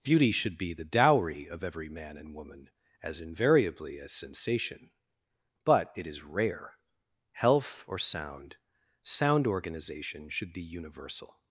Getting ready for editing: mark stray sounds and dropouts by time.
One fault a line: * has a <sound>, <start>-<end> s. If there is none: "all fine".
all fine